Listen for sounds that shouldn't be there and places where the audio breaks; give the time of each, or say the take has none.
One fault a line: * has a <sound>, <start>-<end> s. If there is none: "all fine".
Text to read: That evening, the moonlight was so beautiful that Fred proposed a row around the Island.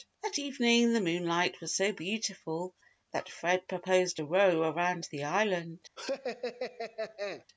* has a laugh, 6.0-7.4 s